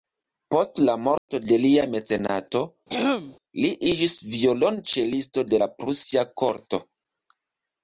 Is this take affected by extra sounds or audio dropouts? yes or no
yes